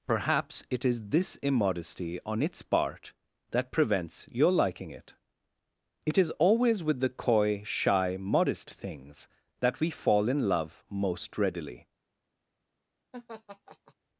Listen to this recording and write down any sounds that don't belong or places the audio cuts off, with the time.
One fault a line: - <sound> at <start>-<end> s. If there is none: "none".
- laugh at 13.1-13.9 s